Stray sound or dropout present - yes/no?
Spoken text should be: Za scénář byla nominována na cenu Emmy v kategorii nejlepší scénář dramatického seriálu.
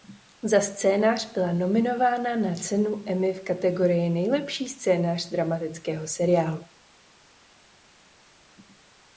no